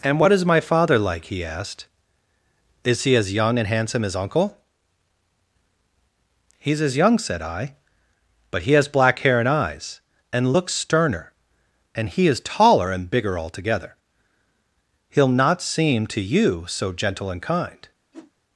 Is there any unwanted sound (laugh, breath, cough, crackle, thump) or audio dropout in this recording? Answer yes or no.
yes